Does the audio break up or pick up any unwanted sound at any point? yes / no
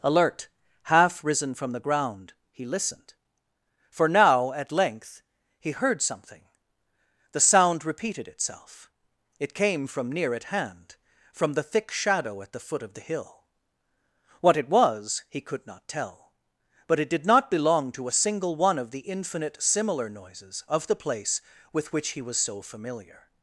no